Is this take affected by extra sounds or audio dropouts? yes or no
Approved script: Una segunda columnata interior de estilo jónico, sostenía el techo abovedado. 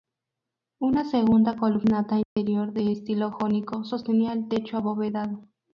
yes